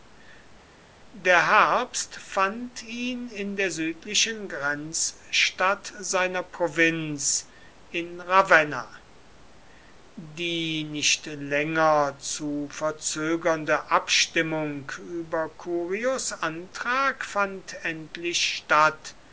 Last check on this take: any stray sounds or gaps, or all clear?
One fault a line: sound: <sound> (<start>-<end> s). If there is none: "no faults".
no faults